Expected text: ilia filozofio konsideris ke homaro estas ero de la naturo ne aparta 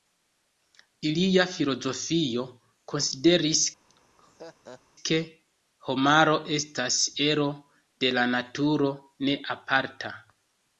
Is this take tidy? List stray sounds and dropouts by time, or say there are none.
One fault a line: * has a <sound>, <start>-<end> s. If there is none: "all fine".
* has a laugh, 3.9-4.8 s